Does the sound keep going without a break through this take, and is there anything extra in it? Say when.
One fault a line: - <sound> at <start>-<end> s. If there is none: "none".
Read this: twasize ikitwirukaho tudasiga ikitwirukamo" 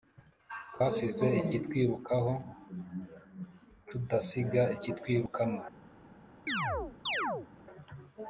- chirp at 6.5-7.5 s